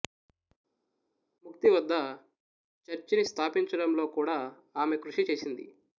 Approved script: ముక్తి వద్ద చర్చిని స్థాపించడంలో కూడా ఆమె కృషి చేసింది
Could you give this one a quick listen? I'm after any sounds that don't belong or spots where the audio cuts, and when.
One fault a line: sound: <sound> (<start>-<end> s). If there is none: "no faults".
no faults